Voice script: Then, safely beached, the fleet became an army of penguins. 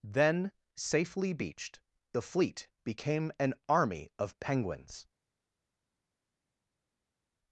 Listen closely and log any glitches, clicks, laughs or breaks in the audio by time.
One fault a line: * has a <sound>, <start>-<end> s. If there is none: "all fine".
all fine